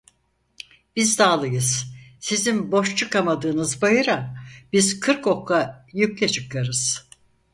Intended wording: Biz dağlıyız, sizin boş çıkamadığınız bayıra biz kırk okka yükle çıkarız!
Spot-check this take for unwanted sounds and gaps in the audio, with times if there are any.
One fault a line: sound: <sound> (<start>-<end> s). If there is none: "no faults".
no faults